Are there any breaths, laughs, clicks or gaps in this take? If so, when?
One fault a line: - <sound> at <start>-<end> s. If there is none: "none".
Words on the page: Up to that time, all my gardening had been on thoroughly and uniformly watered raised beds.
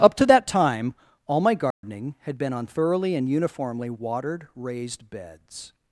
- dropout at 1.7-1.8 s